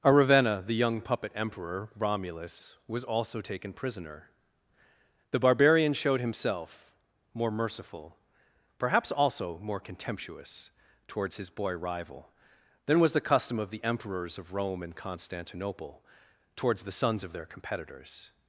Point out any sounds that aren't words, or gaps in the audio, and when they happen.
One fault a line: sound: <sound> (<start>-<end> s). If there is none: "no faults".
no faults